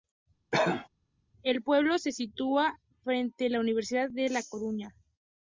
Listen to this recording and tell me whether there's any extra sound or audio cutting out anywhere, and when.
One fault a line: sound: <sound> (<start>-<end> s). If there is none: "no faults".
sound: cough (0.5-0.9 s)